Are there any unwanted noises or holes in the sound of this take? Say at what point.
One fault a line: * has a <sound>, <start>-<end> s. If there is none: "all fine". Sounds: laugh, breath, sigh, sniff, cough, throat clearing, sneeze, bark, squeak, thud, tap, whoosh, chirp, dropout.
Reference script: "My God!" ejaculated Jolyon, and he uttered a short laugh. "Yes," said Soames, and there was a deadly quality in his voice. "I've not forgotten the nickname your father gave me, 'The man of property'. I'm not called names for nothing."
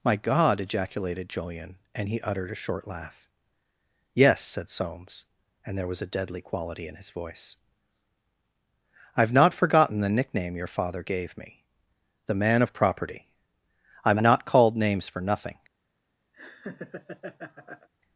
* has a laugh, 16.3-17.9 s